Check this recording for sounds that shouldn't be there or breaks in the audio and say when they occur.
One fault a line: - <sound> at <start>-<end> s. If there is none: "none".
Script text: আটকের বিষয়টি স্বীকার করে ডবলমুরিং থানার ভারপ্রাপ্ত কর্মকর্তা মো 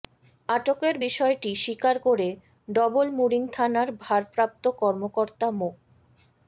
none